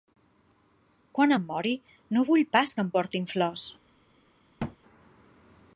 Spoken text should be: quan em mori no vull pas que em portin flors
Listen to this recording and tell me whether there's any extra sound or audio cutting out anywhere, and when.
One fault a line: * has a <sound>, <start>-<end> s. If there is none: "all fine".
* has a thud, 4.6-4.8 s